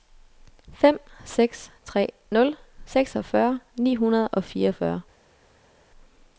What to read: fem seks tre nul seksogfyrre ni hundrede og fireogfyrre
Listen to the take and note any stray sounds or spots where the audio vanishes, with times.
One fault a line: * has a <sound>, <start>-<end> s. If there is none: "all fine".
all fine